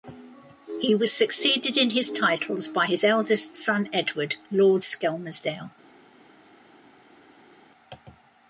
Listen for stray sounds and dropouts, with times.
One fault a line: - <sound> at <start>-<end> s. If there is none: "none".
none